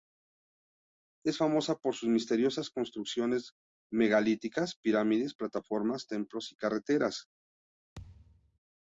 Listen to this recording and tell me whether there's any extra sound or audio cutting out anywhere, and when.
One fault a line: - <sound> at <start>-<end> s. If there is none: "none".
- thud at 7.9-8.6 s